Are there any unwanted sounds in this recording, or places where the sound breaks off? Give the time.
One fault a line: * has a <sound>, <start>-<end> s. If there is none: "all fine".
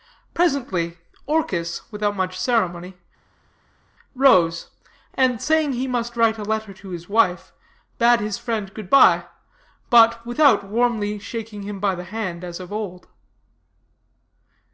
all fine